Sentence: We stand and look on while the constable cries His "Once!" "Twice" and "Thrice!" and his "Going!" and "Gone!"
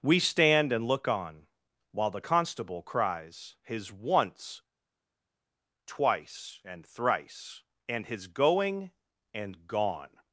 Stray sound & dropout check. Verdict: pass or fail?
pass